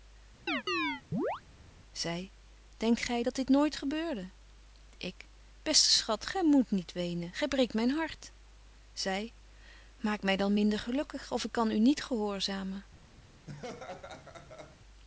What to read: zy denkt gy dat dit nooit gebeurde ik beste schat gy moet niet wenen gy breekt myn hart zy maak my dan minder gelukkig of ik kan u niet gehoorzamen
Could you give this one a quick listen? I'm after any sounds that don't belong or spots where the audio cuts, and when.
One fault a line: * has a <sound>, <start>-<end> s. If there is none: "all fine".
* has a chirp, 0.5-1.4 s
* has a laugh, 13.5-14.8 s